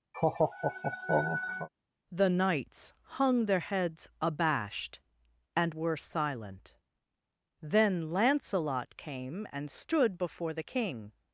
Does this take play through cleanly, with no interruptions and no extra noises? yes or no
no